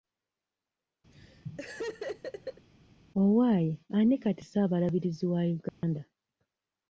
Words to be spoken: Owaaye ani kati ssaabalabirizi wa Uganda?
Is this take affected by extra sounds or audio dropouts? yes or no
yes